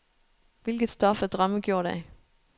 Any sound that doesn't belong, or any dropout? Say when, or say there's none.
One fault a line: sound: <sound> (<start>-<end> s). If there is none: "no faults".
no faults